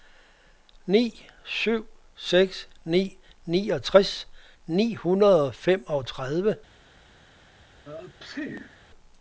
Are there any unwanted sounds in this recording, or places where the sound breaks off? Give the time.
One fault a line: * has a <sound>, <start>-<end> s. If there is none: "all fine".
* has a sneeze, 7.8-8.9 s